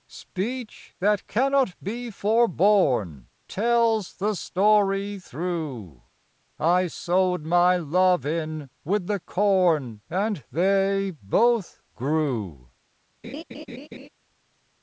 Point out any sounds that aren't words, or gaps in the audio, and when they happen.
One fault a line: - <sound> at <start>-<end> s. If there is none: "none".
- laugh at 13.2-14.1 s